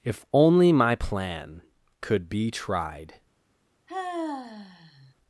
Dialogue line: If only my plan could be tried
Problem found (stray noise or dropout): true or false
true